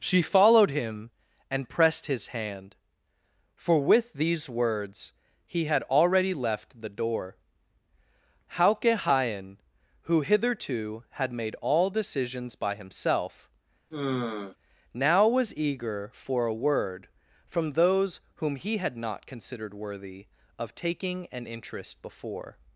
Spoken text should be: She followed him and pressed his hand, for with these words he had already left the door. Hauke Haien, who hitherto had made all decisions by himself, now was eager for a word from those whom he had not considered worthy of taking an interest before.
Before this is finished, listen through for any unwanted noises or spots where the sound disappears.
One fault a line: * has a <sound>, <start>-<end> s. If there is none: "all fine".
* has a sigh, 13.9-14.6 s